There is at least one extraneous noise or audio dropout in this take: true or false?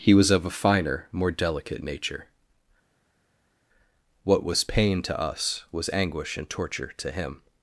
false